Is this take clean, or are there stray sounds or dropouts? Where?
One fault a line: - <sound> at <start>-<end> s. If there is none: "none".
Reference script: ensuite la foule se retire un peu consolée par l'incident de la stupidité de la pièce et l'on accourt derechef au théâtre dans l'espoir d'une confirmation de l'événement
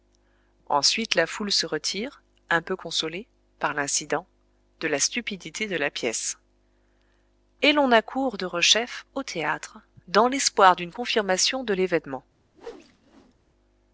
- whoosh at 12.5-13.3 s